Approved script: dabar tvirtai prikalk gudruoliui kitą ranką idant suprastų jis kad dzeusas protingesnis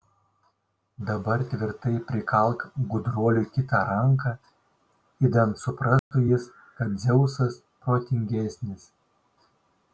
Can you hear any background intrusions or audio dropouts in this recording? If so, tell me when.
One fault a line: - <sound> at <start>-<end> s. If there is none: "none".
- dropout at 6.0-6.1 s